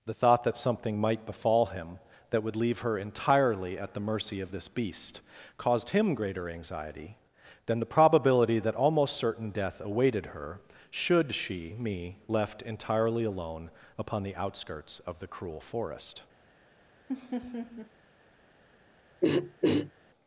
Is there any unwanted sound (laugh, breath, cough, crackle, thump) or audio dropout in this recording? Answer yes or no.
yes